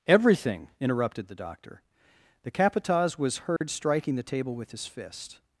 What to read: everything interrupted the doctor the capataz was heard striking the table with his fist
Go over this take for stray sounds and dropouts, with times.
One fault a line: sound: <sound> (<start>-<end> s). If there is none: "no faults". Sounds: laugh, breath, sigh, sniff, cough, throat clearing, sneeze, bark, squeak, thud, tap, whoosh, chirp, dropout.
sound: dropout (3.6-3.6 s)